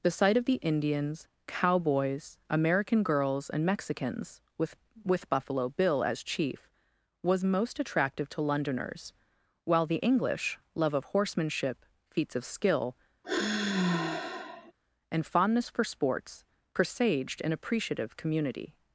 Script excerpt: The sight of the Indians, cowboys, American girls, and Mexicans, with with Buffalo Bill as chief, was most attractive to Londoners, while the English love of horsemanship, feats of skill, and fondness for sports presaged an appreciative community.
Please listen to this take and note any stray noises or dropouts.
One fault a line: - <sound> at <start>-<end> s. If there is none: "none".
- sigh at 13.2-14.7 s